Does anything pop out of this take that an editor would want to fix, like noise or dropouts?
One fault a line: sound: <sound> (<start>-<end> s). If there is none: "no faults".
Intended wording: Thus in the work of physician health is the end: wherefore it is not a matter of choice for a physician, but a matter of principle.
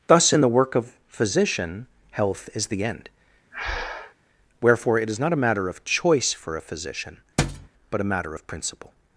sound: breath (3.5-4.1 s)
sound: thud (7.4-7.7 s)